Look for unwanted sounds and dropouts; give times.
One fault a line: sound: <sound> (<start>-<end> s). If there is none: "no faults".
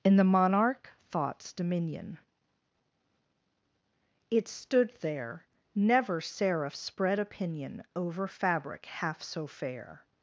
no faults